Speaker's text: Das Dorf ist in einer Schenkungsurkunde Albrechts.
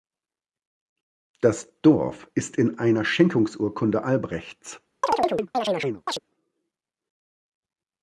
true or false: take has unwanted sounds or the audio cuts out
true